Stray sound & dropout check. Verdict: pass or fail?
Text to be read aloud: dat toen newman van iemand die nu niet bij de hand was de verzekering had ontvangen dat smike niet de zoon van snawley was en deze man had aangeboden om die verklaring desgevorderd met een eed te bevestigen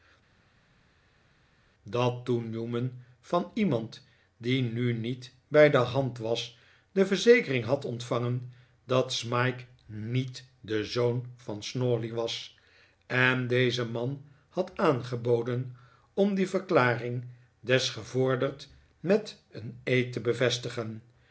pass